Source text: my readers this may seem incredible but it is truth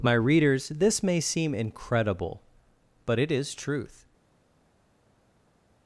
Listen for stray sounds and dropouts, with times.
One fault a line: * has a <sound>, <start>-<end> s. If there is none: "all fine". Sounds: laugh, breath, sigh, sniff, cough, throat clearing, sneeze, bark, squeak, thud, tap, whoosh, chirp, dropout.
all fine